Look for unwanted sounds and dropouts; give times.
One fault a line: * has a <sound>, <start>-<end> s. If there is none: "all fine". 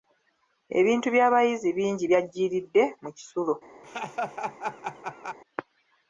* has a laugh, 3.8-5.4 s